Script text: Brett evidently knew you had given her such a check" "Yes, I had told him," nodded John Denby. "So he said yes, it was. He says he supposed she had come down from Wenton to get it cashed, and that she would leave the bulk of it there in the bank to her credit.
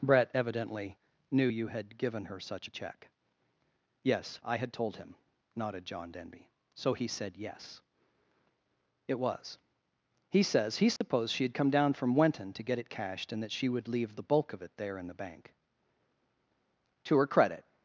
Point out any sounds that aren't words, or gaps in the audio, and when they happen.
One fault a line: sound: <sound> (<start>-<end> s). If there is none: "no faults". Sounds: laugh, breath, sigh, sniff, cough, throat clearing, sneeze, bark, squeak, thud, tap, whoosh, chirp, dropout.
sound: dropout (11.0-11.0 s)